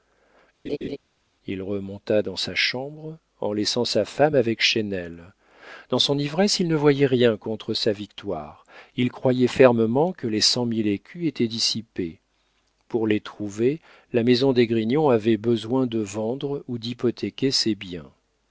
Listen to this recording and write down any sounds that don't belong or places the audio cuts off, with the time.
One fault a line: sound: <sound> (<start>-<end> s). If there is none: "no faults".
sound: laugh (0.7-1.0 s)